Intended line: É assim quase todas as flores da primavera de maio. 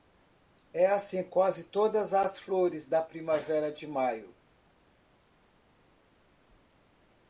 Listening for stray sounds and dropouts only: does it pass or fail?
pass